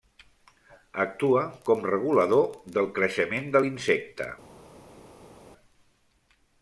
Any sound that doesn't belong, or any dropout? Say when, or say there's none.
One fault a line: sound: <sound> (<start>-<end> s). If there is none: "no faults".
no faults